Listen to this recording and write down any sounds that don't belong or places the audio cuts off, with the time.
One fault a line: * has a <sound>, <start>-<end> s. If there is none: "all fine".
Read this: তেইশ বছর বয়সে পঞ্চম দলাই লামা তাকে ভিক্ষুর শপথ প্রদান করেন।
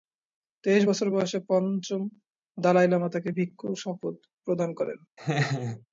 * has a laugh, 5.2-5.9 s